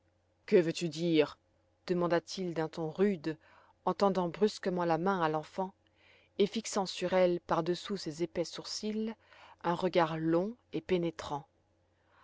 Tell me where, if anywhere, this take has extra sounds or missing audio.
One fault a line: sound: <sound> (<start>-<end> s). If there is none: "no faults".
no faults